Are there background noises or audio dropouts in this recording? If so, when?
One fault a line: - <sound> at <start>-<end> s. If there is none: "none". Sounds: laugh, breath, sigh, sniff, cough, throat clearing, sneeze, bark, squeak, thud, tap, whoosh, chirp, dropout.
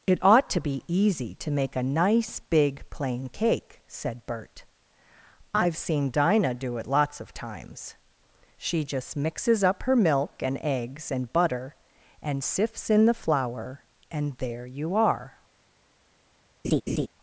- laugh at 16.6-17.1 s